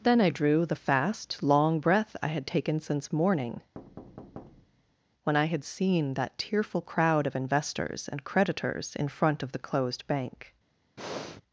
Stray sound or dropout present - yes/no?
yes